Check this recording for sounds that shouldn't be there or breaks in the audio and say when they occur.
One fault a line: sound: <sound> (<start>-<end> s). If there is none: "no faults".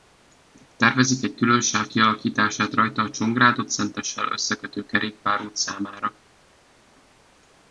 no faults